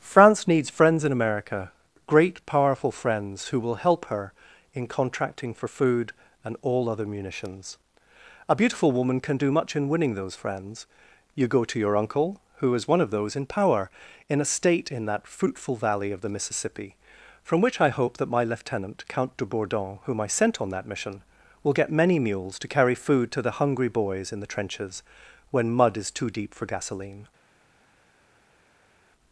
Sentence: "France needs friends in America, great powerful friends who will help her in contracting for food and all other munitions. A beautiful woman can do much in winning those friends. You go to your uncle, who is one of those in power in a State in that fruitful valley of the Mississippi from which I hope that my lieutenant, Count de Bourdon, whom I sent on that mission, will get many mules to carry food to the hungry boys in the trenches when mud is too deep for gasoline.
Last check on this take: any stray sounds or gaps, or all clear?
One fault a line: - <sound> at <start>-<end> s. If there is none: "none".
none